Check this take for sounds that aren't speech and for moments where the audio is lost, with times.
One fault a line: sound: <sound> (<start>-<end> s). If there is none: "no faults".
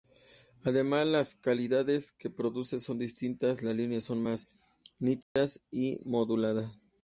sound: dropout (5.2-5.4 s)